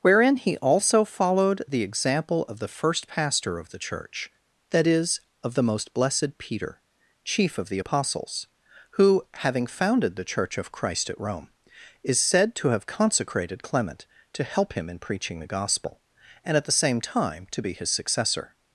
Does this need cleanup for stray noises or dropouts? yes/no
no